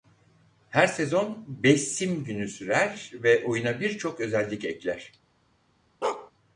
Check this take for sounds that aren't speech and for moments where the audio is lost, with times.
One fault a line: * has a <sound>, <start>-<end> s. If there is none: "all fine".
* has a bark, 6.0-6.3 s